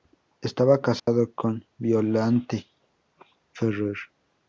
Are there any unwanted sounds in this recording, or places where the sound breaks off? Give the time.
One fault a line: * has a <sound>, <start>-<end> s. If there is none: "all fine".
* has a dropout, 1.0-1.1 s